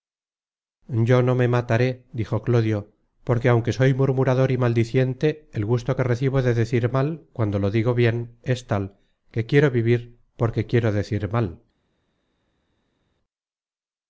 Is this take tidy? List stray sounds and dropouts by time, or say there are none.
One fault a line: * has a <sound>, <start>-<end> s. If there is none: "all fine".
all fine